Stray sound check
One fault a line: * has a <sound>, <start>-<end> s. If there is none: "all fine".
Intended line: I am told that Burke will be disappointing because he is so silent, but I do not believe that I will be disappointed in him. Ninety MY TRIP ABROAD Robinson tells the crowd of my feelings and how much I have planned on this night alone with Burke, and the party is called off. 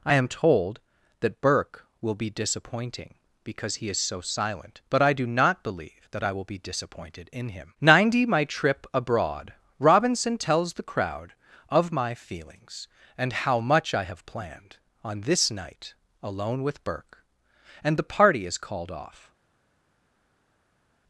all fine